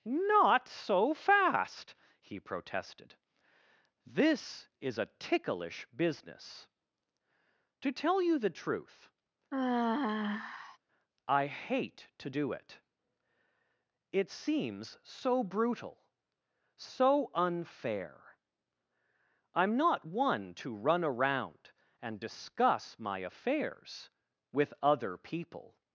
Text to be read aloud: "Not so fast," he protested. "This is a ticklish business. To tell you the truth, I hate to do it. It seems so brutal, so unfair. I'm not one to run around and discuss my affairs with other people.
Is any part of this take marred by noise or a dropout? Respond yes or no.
yes